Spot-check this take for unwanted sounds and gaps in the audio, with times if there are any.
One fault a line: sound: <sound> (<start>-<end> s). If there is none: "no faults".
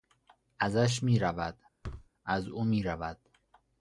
sound: thud (1.8-2.1 s)